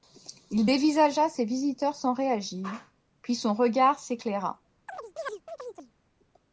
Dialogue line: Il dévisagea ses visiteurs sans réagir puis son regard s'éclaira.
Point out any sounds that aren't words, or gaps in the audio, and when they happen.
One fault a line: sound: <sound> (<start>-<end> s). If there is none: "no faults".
sound: chirp (4.9-5.9 s)